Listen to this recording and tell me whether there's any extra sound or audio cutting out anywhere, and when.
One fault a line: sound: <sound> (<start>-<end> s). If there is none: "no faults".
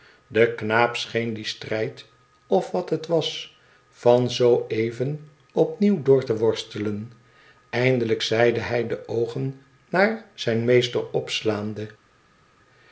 no faults